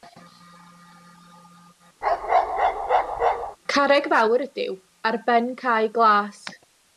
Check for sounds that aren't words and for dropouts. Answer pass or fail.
fail